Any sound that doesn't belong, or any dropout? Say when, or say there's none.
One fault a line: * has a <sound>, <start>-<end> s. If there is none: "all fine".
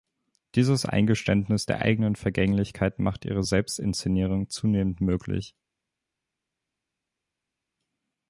all fine